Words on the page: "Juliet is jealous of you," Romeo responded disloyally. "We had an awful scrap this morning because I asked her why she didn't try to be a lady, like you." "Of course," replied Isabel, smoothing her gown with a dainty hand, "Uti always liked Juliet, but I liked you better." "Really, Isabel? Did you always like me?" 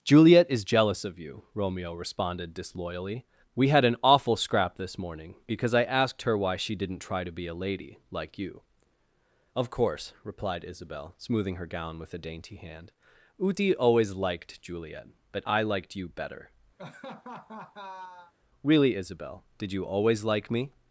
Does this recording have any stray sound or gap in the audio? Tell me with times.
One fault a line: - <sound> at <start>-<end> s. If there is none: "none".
- laugh at 16.8-18.3 s